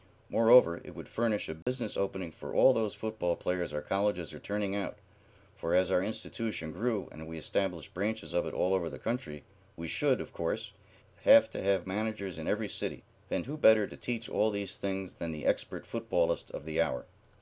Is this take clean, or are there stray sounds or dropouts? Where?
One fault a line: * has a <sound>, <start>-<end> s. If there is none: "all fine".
* has a dropout, 1.6-1.7 s